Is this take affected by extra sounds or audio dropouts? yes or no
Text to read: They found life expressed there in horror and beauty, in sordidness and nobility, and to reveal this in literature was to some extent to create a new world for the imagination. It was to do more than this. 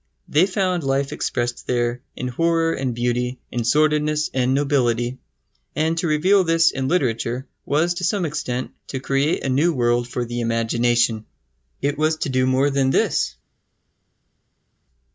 no